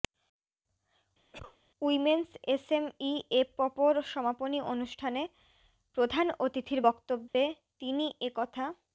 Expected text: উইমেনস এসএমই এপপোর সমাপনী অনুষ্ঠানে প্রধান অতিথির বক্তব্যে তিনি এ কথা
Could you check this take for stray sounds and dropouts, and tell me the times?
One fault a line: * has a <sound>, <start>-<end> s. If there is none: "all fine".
* has a cough, 1.3-1.6 s
* has a dropout, 7.3-7.3 s